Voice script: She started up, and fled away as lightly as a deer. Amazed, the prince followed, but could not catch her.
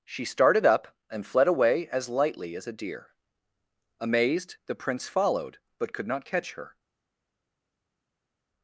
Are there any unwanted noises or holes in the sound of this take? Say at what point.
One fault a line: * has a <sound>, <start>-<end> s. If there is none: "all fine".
all fine